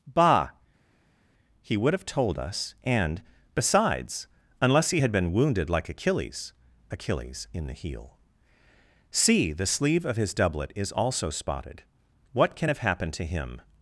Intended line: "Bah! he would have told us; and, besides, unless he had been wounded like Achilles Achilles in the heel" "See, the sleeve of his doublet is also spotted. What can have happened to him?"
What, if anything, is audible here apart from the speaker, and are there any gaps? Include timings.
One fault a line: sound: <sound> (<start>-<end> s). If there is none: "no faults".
no faults